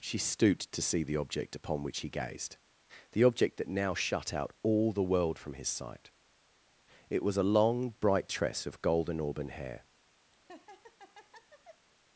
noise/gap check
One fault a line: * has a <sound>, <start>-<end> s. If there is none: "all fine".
* has a laugh, 10.3-11.9 s